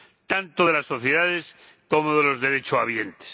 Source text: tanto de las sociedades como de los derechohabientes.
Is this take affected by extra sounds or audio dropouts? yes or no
no